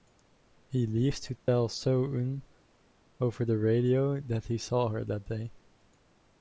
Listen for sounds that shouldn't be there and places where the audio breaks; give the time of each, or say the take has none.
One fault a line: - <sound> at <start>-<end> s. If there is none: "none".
- dropout at 1.4-1.5 s